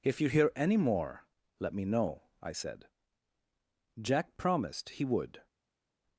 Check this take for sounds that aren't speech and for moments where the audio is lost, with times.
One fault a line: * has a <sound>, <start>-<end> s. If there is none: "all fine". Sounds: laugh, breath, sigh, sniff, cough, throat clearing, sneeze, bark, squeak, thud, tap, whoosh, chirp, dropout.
all fine